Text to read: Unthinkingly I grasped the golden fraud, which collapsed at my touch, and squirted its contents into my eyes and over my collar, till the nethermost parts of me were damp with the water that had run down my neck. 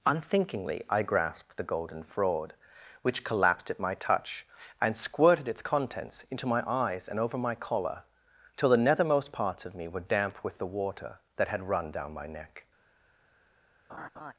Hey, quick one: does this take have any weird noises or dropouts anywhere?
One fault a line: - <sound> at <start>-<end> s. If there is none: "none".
- laugh at 13.9-14.3 s